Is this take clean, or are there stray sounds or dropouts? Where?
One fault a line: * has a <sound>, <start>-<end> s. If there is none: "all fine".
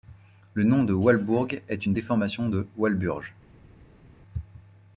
all fine